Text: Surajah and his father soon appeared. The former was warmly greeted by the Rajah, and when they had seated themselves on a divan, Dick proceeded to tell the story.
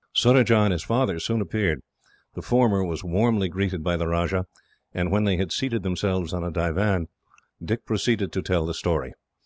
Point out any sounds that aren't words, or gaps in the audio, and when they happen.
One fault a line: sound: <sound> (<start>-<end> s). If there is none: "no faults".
no faults